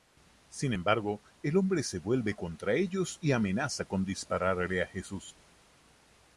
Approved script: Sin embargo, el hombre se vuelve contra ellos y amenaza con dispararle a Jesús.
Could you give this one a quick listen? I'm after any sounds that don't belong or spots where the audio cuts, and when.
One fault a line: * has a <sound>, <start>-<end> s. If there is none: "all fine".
all fine